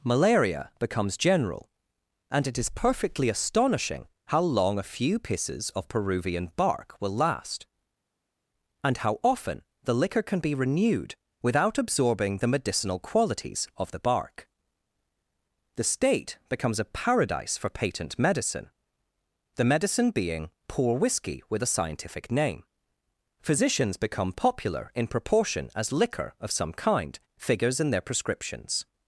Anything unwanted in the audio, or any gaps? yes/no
no